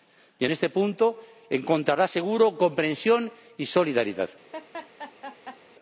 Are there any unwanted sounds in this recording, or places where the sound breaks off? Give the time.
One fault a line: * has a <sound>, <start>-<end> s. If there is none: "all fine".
* has a laugh, 4.5-5.6 s